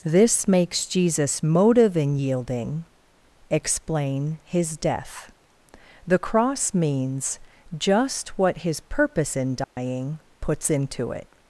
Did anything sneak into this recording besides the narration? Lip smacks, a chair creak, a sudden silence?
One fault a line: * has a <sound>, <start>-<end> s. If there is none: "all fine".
* has a dropout, 9.6-9.8 s